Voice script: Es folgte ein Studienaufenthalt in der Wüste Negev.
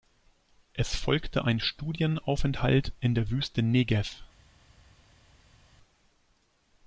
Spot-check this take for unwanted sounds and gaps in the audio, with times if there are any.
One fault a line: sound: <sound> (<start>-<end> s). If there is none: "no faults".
no faults